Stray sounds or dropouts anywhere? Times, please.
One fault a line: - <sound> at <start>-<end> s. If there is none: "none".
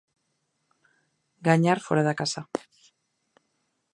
none